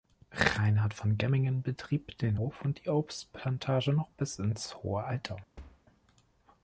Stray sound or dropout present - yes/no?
yes